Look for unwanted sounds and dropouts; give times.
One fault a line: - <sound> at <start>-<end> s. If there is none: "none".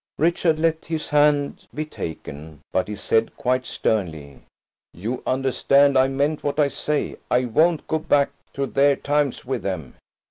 none